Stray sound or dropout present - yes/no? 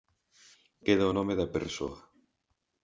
no